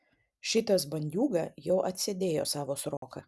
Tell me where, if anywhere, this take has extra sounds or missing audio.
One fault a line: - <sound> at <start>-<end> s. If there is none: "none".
- dropout at 3.0-3.0 s